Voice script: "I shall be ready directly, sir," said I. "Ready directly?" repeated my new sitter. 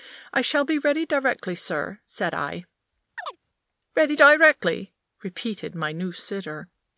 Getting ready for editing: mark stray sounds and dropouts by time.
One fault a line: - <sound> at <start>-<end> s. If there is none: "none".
- chirp at 3.2-3.4 s